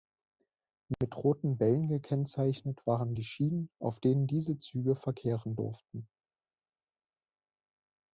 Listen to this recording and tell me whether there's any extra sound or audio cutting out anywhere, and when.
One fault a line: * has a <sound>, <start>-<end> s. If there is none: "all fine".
all fine